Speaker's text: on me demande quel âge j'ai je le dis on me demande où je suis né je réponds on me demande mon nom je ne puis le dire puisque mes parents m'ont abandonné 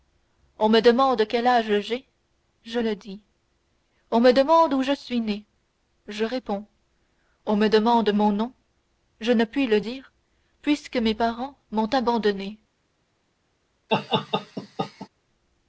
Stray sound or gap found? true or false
true